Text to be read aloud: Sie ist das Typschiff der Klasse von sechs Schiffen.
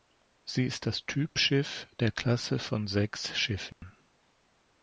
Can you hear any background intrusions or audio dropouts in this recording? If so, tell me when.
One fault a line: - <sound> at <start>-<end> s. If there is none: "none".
- dropout at 3.7-3.8 s